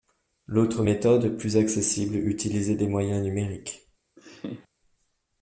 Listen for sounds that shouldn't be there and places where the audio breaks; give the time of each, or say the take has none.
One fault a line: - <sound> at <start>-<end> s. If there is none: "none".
- laugh at 4.2-4.7 s